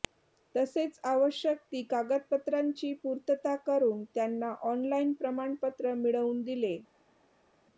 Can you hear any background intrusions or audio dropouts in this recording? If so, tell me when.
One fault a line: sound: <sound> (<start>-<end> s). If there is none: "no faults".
no faults